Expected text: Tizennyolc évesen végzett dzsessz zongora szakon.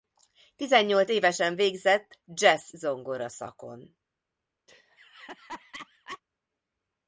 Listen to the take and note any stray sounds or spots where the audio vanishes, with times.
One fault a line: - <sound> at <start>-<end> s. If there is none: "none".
- laugh at 4.7-6.2 s